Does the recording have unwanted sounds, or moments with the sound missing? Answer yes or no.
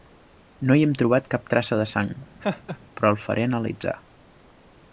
yes